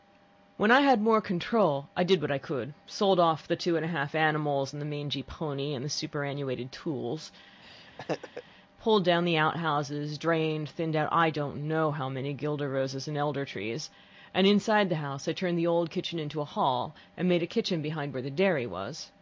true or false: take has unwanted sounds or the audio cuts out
true